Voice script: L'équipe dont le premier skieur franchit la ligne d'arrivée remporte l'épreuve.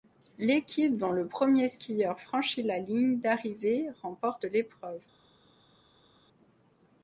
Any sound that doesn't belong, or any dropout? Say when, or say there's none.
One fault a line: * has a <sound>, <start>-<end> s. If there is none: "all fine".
all fine